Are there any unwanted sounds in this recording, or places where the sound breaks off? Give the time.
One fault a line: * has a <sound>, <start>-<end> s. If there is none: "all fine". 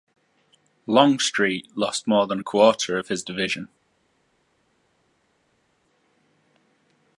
all fine